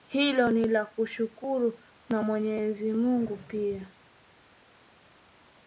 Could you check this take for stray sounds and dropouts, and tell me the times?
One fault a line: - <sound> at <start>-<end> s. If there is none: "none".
none